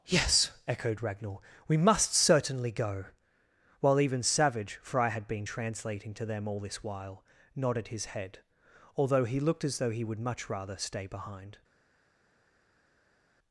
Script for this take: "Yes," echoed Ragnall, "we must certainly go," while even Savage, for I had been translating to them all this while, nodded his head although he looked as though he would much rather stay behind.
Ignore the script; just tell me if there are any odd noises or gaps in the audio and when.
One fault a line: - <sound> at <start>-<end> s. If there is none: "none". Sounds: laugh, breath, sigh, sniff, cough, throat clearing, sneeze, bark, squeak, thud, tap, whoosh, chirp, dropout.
none